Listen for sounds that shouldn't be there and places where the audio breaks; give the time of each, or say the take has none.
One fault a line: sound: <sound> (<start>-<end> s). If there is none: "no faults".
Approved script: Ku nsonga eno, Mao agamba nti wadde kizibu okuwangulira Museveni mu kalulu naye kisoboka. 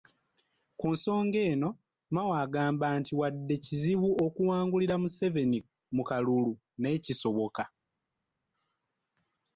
no faults